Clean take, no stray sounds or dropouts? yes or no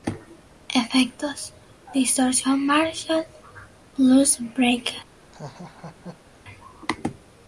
no